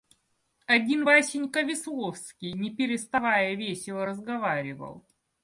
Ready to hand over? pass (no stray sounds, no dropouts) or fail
pass